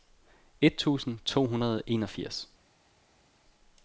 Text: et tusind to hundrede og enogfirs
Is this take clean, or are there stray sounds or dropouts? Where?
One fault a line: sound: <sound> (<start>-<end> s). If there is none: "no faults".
no faults